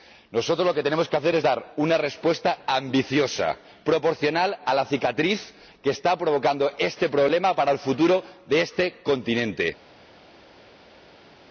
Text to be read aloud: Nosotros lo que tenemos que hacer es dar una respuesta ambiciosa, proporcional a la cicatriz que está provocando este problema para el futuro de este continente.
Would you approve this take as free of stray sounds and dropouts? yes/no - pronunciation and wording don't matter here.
yes